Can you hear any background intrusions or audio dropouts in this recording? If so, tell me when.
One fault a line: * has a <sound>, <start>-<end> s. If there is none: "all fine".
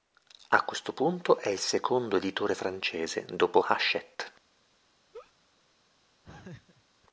* has a laugh, 5.1-5.3 s
* has a laugh, 6.2-6.8 s